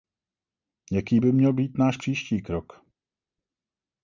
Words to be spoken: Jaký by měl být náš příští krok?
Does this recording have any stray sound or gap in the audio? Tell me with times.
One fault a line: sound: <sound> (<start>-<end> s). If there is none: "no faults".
no faults